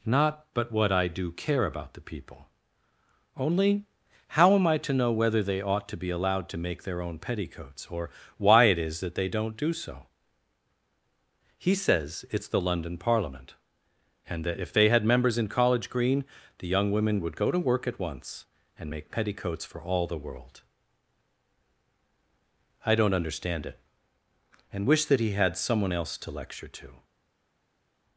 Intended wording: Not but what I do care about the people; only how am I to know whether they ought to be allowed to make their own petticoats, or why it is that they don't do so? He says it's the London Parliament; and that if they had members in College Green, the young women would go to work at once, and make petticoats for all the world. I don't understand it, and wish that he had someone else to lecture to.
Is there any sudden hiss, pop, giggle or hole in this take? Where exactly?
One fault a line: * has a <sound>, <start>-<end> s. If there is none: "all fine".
all fine